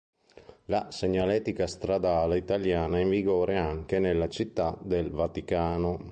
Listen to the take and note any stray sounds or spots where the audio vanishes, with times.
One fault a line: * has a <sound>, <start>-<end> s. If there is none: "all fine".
all fine